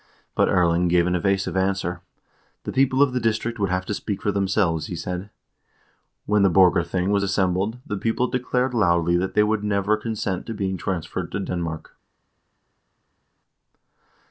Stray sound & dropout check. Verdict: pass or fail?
pass